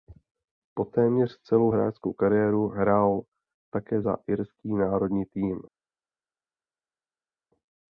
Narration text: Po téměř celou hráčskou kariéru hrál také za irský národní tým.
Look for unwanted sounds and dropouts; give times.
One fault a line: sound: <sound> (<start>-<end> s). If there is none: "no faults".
no faults